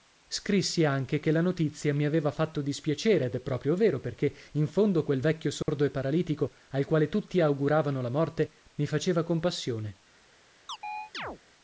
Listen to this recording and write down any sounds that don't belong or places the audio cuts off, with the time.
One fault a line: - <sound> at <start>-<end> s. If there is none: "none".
- dropout at 5.6-5.7 s
- chirp at 10.7-11.4 s